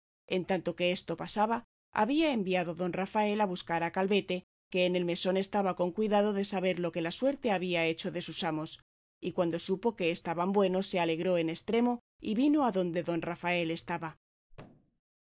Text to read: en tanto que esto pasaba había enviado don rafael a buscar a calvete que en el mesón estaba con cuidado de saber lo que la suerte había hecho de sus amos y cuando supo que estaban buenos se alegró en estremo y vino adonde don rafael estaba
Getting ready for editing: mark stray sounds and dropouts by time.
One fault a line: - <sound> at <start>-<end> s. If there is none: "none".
- thud at 14.5-15.0 s